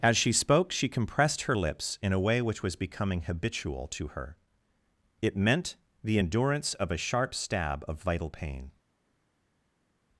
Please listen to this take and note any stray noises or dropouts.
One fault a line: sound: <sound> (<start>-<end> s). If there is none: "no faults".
no faults